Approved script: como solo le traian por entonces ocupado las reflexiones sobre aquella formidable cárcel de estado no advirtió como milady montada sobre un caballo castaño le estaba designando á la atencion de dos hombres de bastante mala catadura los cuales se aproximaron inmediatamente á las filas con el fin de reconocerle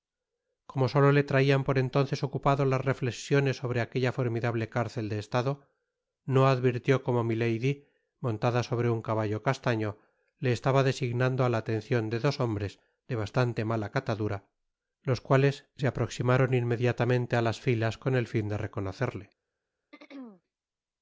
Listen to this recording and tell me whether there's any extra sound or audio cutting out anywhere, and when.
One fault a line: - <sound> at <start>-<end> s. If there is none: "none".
- throat clearing at 19.9-20.4 s